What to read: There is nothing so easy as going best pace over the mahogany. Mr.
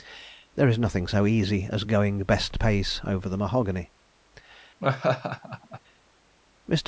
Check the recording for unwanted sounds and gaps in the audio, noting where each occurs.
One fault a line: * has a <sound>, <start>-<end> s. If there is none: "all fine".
* has a laugh, 4.8-5.8 s